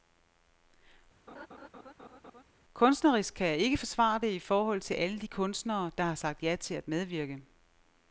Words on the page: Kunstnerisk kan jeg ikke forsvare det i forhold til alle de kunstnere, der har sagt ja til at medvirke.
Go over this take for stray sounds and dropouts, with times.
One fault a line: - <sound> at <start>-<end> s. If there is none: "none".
- laugh at 1.3-2.4 s